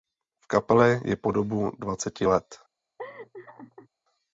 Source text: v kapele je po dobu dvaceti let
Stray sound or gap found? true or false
true